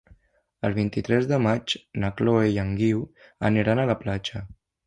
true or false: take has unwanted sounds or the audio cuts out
false